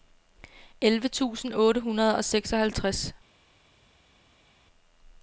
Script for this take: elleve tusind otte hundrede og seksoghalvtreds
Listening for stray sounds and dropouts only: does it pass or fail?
pass